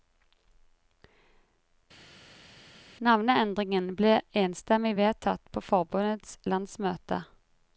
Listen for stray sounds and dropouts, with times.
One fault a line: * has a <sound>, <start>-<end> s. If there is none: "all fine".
all fine